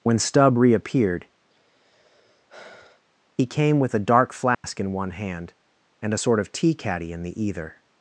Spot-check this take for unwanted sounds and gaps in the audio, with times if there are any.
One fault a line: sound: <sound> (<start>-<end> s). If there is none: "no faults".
sound: sigh (1.5-3.0 s)
sound: dropout (4.5-4.6 s)